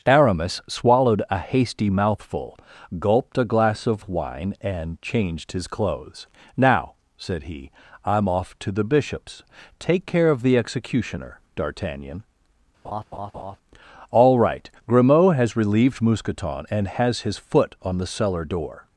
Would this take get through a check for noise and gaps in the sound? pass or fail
fail